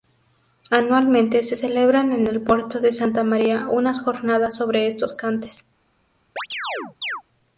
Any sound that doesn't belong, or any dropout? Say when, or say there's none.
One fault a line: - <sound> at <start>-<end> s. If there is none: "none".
- chirp at 6.4-7.2 s